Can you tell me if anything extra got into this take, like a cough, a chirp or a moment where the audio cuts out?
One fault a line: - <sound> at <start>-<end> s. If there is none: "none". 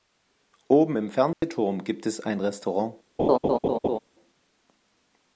- dropout at 1.3-1.4 s
- laugh at 3.2-4.0 s